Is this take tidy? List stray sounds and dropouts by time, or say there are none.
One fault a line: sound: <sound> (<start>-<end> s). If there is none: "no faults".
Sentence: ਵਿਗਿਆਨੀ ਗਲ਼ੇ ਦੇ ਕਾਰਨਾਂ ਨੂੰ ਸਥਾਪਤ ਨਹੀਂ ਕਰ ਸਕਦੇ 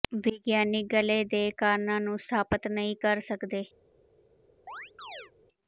sound: chirp (4.7-5.3 s)